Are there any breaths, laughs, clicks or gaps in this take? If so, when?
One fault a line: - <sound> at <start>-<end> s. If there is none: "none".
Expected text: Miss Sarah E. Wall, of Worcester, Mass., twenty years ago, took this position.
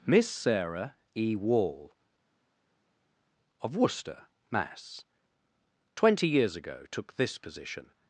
none